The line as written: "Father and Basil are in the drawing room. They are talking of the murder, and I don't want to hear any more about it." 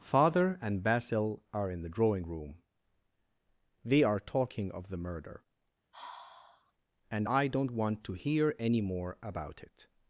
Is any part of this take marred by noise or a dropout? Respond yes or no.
yes